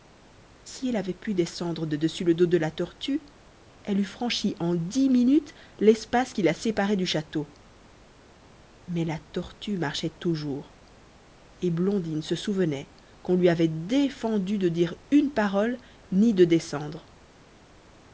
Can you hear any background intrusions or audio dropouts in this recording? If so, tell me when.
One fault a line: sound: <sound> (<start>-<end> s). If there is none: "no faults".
no faults